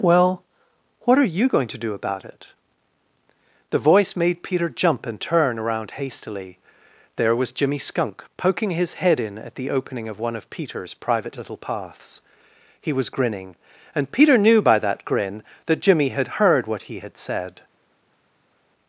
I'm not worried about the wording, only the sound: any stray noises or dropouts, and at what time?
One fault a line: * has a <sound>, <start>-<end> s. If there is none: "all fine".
all fine